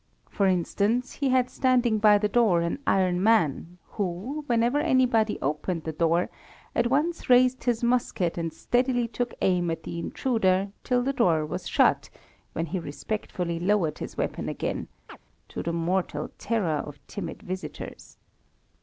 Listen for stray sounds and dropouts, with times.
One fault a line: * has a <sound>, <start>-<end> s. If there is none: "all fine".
* has a chirp, 15.1-15.2 s